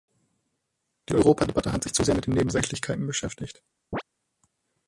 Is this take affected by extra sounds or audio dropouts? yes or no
yes